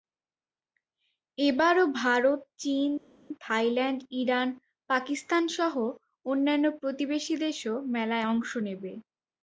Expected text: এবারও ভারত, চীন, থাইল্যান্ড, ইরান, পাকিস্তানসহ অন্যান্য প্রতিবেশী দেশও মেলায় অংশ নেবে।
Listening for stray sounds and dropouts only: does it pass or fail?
pass